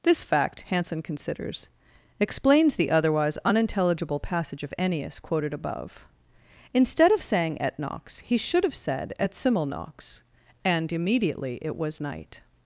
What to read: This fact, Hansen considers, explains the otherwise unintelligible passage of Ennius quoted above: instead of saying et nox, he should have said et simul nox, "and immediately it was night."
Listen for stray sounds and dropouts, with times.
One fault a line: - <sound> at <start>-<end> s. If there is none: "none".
none